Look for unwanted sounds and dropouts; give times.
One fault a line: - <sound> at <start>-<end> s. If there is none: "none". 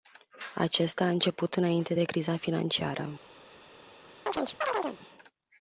- chirp at 4.3-5.0 s